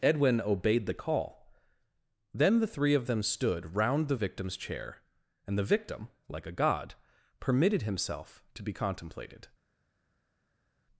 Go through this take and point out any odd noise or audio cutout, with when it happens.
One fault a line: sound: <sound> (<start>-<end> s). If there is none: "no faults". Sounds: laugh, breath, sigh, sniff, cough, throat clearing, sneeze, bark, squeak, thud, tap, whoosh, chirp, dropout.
no faults